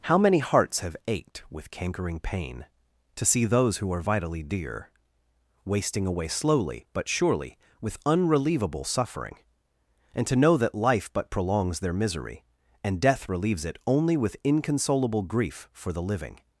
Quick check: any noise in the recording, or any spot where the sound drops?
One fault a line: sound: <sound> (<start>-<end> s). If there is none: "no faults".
no faults